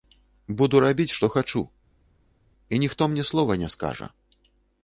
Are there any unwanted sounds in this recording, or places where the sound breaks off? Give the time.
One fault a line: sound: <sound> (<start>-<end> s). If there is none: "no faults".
no faults